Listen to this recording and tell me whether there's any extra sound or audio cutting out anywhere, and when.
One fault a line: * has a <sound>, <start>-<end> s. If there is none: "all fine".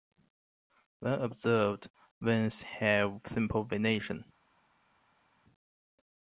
all fine